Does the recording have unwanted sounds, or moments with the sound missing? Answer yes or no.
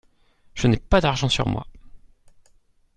no